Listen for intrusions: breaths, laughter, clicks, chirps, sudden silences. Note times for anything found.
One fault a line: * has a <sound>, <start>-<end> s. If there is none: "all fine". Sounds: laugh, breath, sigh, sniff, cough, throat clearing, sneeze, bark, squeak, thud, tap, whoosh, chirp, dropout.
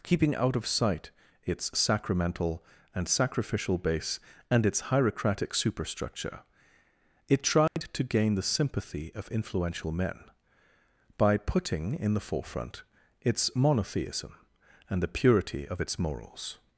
* has a dropout, 7.7-7.8 s